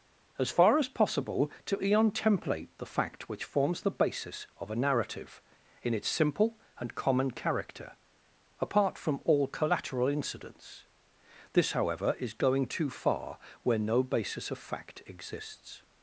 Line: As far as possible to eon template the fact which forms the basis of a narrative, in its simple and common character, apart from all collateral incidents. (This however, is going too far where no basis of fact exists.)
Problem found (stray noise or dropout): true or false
false